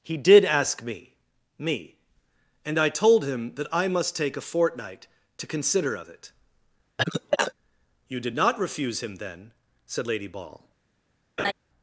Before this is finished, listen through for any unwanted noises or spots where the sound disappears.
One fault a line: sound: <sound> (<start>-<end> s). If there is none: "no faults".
sound: cough (7.0-7.5 s)
sound: laugh (11.4-11.5 s)